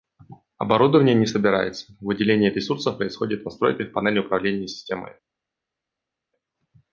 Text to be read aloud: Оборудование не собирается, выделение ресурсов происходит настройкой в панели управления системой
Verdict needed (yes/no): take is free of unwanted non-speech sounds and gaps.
yes